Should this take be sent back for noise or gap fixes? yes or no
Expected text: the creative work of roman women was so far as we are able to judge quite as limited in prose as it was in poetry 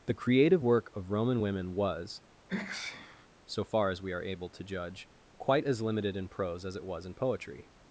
yes